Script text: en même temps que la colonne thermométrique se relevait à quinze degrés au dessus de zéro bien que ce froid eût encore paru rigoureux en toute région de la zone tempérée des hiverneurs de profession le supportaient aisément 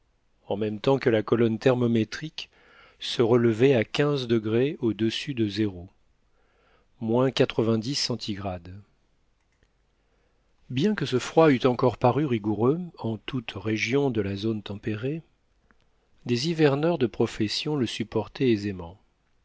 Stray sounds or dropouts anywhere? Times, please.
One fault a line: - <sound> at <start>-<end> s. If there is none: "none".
none